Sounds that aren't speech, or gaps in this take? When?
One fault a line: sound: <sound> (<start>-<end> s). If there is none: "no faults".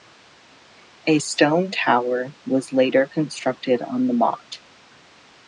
no faults